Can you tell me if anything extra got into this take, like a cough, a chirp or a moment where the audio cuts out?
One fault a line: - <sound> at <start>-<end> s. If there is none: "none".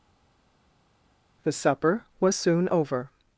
none